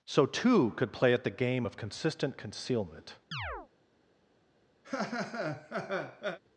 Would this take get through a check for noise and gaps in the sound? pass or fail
fail